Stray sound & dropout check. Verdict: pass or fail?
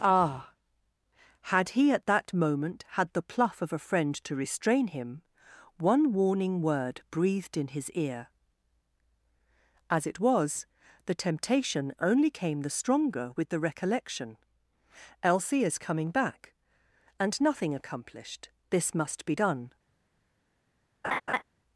fail